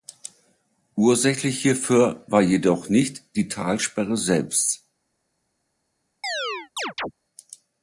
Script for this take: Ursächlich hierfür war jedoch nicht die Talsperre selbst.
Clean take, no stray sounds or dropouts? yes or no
no